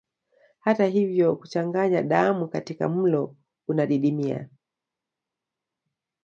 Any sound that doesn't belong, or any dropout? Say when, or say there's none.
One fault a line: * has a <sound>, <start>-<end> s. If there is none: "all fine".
all fine